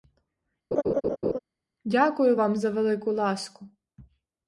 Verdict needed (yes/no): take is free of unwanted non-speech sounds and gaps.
no